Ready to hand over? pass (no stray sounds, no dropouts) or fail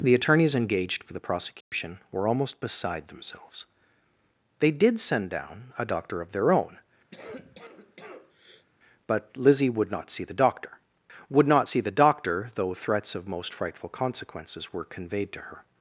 fail